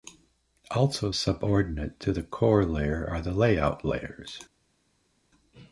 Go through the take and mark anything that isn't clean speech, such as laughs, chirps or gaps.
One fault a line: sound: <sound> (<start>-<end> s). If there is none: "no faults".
no faults